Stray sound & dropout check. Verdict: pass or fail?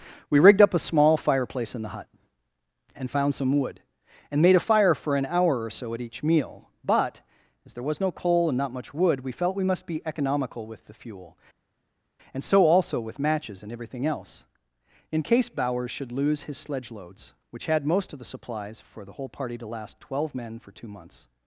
pass